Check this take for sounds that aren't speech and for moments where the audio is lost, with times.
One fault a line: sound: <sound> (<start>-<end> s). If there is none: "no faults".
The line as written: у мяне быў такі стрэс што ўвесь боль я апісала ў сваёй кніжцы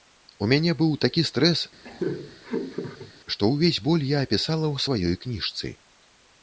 sound: laugh (1.8-3.1 s)